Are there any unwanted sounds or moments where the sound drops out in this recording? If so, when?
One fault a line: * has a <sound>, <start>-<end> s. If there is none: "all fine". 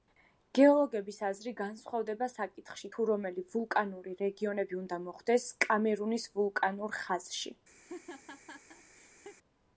* has a laugh, 7.8-9.4 s